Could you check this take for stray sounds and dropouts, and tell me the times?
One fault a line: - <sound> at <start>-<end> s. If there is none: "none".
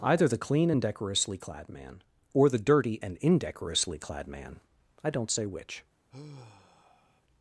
- sigh at 6.1-7.2 s